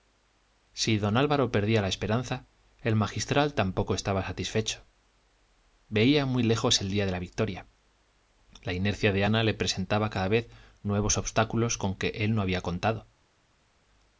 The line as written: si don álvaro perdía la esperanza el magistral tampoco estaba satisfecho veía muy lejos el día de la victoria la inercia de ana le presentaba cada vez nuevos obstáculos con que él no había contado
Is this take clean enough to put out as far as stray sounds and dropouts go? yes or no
yes